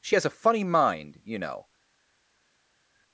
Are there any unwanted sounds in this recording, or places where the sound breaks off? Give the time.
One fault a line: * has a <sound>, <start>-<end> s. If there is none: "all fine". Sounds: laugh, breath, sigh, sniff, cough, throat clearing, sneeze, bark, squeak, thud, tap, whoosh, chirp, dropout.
all fine